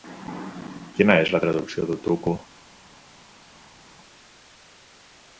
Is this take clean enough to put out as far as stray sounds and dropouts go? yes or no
yes